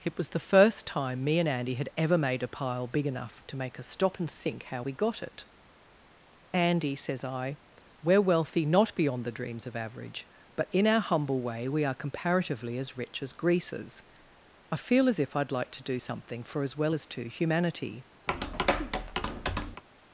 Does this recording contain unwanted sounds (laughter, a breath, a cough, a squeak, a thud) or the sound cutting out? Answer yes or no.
yes